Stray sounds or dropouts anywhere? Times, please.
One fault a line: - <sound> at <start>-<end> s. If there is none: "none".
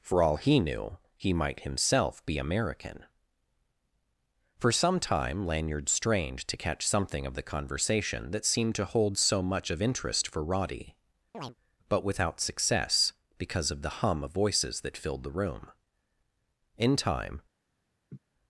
- chirp at 11.3-11.6 s
- laugh at 18.1-18.2 s